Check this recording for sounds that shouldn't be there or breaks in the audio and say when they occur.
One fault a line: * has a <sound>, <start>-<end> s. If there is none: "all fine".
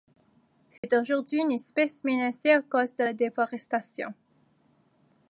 * has a dropout, 0.8-0.8 s